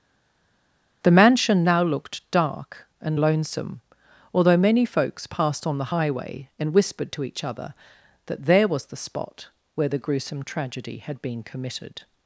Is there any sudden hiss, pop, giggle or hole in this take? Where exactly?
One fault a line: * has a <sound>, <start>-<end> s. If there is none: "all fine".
all fine